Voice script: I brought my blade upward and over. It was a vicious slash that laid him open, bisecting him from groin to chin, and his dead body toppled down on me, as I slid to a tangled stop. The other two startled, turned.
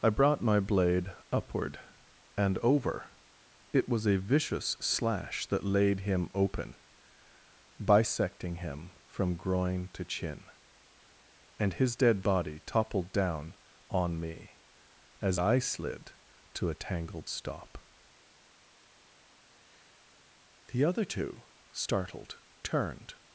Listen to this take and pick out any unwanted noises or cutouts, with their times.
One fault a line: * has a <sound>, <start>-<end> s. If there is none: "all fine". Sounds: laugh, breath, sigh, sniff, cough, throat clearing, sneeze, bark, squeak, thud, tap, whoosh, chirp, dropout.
all fine